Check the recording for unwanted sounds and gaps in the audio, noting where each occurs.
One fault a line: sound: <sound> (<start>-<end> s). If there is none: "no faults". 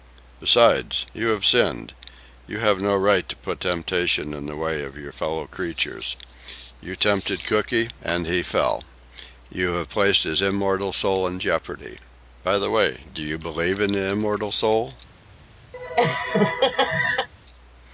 sound: laugh (15.7-17.3 s)